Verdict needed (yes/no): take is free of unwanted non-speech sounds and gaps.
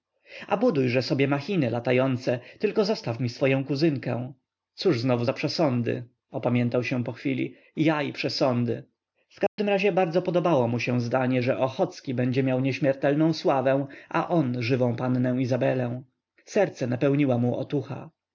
no